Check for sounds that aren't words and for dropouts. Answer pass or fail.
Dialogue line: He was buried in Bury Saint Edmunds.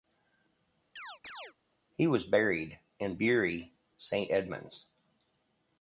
fail